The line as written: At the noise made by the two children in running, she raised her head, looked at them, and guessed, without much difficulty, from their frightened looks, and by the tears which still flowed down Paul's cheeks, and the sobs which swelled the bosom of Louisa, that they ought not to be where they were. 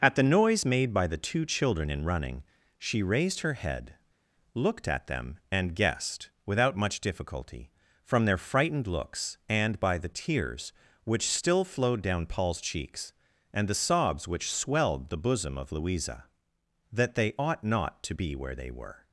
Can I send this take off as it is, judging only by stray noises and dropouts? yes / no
yes